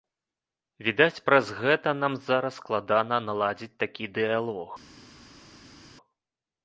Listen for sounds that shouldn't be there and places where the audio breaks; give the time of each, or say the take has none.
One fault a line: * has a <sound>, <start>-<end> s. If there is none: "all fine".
all fine